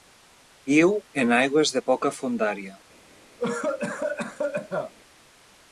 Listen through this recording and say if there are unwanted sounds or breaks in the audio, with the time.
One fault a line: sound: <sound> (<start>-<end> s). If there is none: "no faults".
sound: cough (3.4-4.9 s)